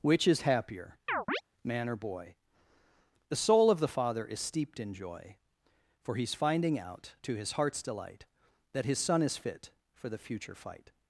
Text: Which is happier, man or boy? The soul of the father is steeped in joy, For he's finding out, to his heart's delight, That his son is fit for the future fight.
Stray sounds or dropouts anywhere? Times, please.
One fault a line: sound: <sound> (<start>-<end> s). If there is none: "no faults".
sound: chirp (1.1-1.4 s)